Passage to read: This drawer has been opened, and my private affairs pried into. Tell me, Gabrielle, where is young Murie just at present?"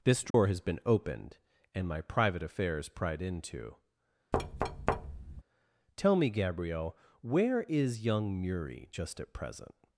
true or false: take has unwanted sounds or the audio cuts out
true